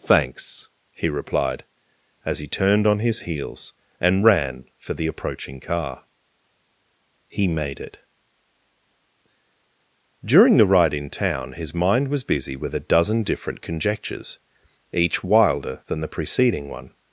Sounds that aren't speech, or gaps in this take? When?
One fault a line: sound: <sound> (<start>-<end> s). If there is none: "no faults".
no faults